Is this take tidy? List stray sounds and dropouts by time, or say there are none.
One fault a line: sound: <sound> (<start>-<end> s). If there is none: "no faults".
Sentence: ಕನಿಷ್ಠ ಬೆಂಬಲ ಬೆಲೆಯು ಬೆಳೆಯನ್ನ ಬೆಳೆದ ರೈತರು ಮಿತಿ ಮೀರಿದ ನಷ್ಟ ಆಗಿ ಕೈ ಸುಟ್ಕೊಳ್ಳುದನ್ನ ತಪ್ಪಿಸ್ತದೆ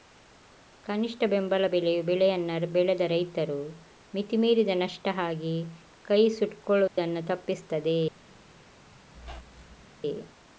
sound: dropout (6.9-7.0 s)
sound: squeak (9.1-9.8 s)